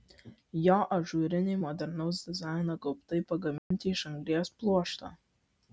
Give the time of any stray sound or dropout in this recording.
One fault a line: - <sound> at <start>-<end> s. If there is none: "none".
- dropout at 3.6-3.7 s